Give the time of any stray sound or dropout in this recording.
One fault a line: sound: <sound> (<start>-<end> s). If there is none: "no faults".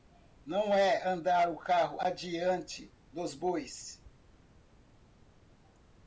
no faults